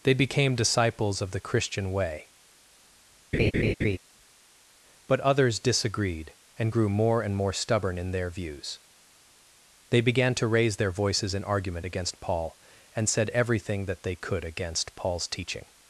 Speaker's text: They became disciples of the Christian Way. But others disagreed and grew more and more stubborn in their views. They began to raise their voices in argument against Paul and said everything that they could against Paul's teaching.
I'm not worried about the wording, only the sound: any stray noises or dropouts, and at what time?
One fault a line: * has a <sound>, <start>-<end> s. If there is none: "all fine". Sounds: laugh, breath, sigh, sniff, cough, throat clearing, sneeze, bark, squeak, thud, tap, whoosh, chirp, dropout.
* has a laugh, 3.3-4.0 s